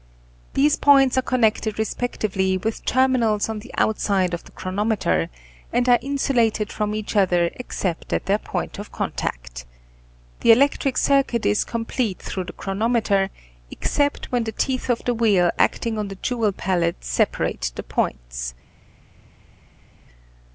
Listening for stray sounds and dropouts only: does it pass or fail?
pass